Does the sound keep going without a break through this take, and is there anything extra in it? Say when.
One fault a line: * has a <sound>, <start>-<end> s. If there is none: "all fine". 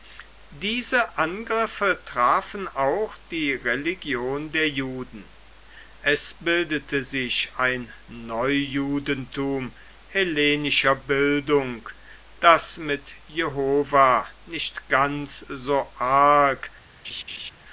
* has a laugh, 17.0-17.5 s